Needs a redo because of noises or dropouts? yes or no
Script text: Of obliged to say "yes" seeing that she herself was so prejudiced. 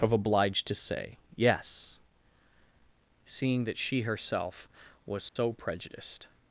yes